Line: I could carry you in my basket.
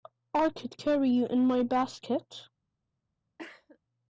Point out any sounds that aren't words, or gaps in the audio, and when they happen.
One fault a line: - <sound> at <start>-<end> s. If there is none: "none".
- cough at 3.4-3.8 s